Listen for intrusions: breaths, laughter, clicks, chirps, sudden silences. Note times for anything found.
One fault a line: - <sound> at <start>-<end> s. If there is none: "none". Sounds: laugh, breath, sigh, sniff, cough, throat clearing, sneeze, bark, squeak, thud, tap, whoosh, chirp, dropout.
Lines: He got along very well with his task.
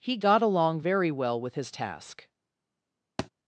- thud at 3.2-3.3 s